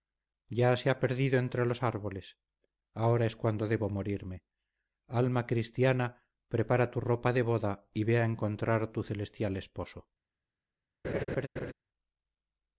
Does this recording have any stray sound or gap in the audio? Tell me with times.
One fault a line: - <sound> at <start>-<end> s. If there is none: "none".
- laugh at 11.0-11.7 s